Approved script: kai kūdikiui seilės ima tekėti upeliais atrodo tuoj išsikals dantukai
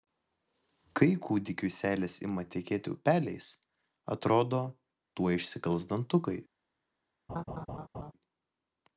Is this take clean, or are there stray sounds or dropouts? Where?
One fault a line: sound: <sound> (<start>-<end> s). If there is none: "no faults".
sound: laugh (7.3-8.1 s)